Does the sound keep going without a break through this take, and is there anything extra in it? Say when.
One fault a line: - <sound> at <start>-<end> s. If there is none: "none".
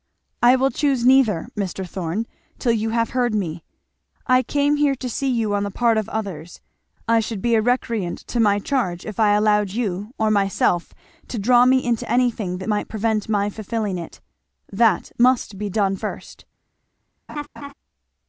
- laugh at 17.3-17.7 s